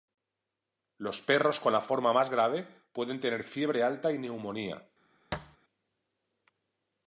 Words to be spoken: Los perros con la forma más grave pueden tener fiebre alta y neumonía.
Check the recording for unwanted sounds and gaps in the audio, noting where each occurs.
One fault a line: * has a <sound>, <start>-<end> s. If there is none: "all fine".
* has a thud, 5.3-5.6 s